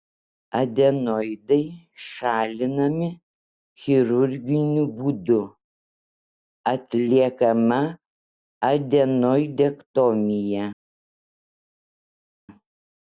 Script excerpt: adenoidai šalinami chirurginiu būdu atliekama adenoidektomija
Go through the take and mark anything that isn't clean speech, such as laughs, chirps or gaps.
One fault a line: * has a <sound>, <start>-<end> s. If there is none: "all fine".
all fine